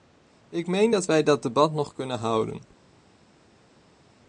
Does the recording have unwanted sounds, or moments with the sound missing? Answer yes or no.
no